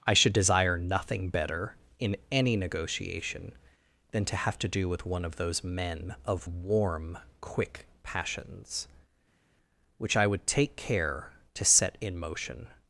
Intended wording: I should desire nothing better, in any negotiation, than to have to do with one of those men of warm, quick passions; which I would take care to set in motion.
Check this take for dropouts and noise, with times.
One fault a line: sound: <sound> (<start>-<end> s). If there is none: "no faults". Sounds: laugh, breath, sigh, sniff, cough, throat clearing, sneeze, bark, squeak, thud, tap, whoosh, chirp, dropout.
no faults